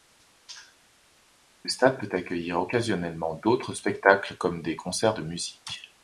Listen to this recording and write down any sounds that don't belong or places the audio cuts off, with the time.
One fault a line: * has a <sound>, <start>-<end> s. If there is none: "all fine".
all fine